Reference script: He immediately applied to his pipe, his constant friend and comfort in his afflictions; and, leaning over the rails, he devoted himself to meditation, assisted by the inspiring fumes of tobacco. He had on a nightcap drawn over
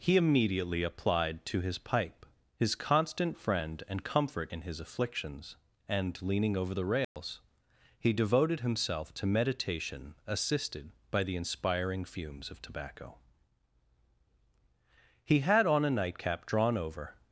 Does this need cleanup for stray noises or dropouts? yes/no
yes